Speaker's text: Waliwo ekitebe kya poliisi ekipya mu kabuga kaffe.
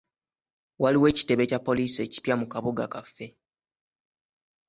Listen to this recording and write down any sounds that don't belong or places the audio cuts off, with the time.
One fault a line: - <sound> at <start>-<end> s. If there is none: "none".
none